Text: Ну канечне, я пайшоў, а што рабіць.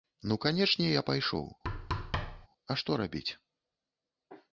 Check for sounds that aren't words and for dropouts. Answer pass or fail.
fail